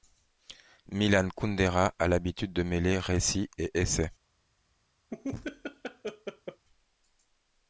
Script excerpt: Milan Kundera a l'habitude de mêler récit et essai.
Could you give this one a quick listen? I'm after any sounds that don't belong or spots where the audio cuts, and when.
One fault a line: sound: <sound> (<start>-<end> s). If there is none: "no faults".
sound: laugh (5.1-6.7 s)